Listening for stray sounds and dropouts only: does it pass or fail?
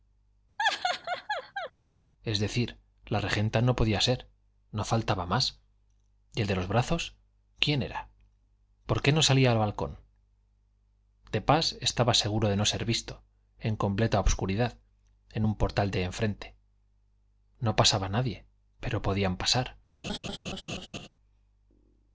fail